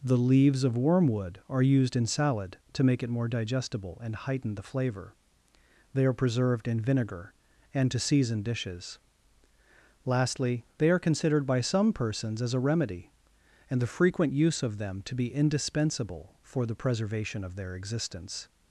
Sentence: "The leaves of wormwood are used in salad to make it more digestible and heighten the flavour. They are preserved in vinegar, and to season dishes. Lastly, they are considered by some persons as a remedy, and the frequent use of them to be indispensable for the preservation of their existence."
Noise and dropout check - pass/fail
pass